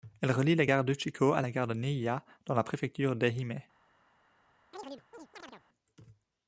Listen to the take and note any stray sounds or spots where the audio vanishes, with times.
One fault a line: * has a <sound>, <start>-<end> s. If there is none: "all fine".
* has a chirp, 4.7-5.6 s